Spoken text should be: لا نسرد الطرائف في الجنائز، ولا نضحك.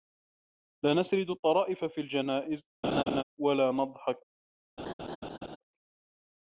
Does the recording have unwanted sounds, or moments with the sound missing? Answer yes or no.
yes